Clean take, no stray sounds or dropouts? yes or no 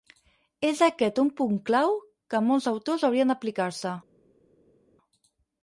yes